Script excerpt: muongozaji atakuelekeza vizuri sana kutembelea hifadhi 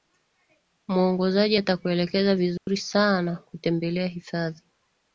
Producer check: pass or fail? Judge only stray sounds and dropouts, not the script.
fail